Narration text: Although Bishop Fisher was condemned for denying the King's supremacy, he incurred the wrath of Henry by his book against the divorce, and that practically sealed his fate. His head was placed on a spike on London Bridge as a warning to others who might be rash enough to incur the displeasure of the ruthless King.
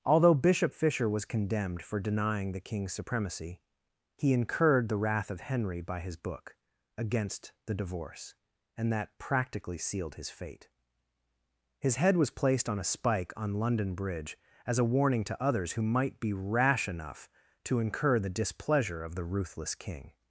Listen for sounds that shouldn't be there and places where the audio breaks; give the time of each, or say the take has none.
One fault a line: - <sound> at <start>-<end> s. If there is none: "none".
none